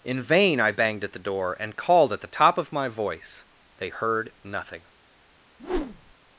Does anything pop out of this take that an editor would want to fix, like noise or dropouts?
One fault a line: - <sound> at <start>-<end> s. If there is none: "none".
- whoosh at 5.6-6.1 s